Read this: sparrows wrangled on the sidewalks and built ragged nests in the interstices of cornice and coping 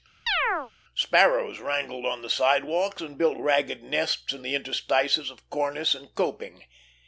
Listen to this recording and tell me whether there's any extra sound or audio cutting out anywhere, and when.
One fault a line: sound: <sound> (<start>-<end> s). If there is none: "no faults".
sound: chirp (0.3-0.7 s)